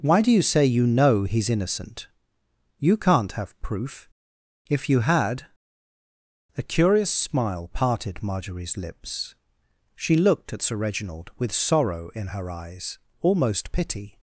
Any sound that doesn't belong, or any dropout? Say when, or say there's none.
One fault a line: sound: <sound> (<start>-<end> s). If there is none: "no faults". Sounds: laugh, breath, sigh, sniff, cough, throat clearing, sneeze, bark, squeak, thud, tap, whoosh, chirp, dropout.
no faults